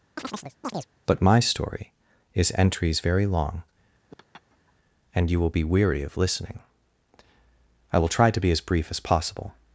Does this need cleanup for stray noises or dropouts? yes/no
yes